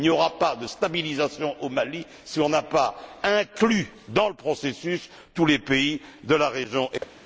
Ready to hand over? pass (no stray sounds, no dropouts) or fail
fail